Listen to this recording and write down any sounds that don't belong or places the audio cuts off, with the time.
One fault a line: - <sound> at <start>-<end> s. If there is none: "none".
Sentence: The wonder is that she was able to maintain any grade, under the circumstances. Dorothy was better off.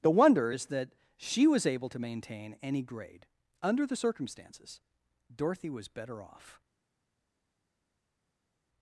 none